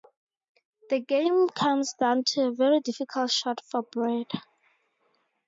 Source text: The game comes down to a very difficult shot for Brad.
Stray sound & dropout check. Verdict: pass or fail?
pass